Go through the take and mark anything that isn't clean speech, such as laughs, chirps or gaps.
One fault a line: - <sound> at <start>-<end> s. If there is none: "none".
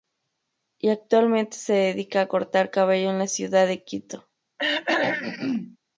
- throat clearing at 4.6-5.8 s